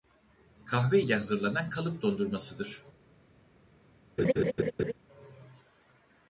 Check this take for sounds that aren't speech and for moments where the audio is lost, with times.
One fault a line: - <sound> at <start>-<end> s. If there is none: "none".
- laugh at 4.2-4.9 s